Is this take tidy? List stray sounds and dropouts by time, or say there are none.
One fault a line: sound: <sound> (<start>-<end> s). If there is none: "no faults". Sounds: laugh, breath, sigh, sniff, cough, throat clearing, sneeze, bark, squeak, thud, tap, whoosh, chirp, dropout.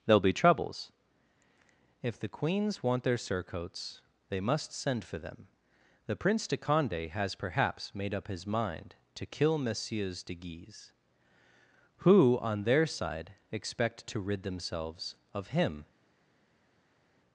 no faults